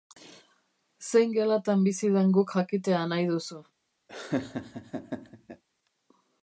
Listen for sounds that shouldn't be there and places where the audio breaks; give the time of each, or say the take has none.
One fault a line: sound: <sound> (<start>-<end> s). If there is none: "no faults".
sound: laugh (4.1-5.6 s)